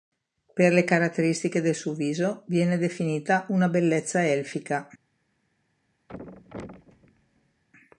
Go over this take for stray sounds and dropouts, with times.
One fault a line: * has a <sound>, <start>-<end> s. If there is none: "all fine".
* has a thud, 6.1-7.6 s